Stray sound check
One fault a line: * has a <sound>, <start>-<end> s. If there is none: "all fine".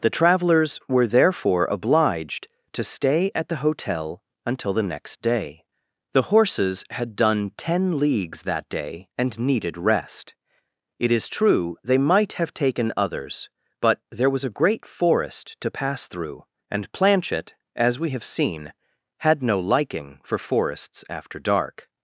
all fine